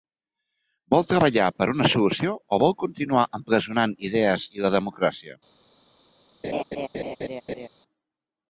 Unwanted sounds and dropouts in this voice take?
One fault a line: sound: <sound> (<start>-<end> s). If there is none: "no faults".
sound: laugh (6.4-7.7 s)